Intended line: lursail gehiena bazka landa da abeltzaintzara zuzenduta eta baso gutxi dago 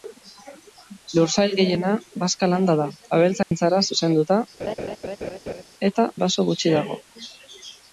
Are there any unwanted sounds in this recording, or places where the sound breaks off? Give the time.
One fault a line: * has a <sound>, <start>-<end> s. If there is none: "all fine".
* has a dropout, 3.4-3.5 s
* has a laugh, 4.6-5.6 s